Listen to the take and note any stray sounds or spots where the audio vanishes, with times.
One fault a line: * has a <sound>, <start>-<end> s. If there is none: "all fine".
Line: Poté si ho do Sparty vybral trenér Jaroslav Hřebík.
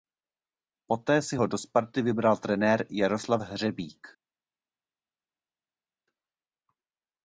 all fine